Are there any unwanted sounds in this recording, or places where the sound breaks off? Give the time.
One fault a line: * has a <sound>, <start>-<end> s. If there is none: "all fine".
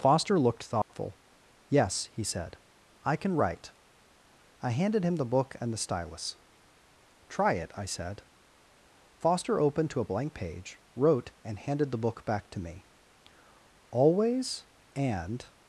* has a dropout, 0.8-0.9 s